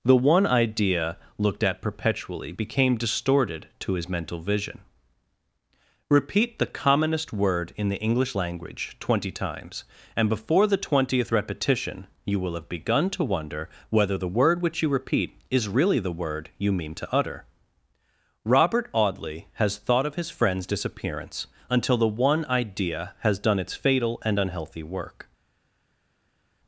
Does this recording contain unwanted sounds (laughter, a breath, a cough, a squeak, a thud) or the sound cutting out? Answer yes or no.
no